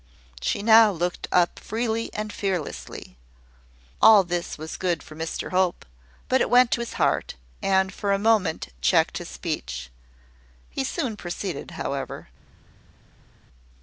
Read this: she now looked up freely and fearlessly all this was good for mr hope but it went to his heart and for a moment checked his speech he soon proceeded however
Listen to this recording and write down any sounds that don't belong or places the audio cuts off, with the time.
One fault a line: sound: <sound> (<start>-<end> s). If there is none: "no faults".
no faults